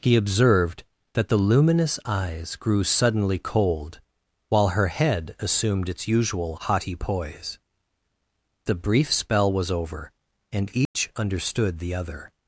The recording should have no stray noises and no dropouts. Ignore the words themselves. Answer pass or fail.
fail